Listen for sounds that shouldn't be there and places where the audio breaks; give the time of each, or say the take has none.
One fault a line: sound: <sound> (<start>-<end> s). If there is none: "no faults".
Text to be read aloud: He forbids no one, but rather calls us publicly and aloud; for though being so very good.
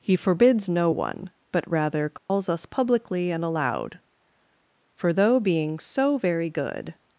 sound: dropout (2.2-2.3 s)